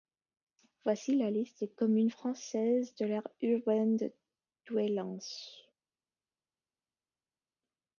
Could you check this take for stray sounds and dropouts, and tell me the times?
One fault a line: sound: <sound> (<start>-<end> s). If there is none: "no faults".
no faults